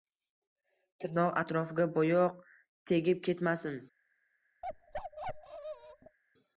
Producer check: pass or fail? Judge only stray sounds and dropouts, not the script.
fail